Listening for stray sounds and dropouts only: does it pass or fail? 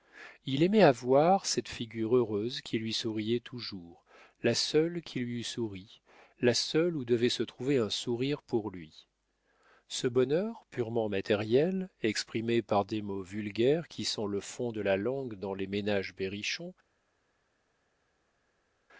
pass